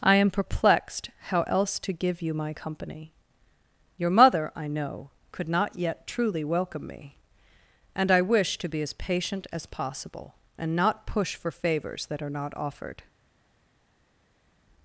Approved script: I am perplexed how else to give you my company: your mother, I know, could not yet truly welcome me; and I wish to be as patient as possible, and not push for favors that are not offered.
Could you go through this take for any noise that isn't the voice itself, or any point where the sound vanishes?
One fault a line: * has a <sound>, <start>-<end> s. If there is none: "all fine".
all fine